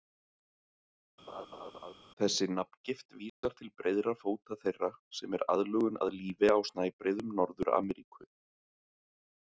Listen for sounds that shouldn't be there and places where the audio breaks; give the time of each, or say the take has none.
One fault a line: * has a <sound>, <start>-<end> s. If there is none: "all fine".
* has a laugh, 1.3-1.9 s
* has a dropout, 3.3-3.4 s